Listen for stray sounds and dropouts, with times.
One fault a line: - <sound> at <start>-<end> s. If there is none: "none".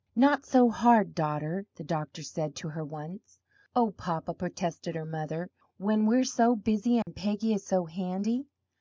- dropout at 7.0-7.1 s